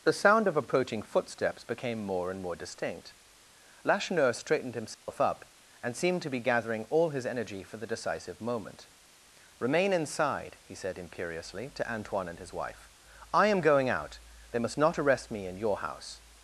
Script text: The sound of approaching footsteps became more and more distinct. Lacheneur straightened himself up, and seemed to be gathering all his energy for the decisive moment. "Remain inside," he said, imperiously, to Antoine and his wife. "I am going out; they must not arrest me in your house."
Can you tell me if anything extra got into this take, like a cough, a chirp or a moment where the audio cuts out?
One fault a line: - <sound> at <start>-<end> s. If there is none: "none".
- dropout at 4.9-5.1 s